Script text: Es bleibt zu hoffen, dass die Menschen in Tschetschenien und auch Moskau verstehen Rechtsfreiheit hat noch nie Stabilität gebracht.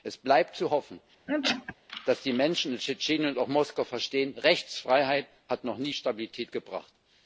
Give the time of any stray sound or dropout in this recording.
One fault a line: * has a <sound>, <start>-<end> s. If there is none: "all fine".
* has a sneeze, 1.3-1.7 s